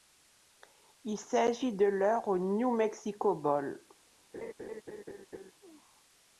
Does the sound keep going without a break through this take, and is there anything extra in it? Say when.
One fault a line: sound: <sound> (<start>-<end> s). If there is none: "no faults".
sound: laugh (4.3-5.5 s)